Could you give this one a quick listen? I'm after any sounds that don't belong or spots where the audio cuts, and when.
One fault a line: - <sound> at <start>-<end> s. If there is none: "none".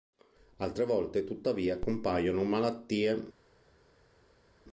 none